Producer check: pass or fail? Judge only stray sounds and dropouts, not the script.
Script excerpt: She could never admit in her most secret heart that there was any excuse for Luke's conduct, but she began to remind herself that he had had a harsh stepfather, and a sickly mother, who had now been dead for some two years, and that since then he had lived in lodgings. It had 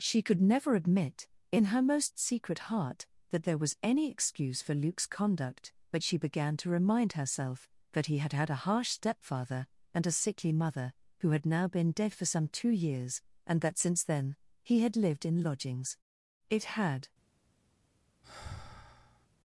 fail